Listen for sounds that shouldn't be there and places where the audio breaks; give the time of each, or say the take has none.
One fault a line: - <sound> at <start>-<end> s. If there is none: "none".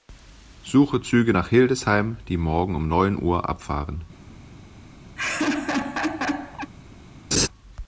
- laugh at 5.2-6.7 s
- laugh at 7.3-7.5 s